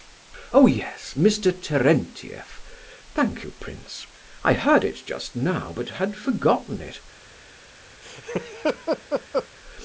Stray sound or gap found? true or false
true